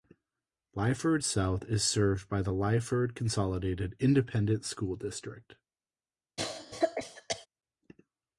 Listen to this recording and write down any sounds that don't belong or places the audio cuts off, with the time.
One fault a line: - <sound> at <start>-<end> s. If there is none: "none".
- cough at 6.4-7.5 s